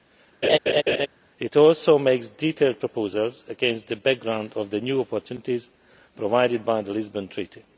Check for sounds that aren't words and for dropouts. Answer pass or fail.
fail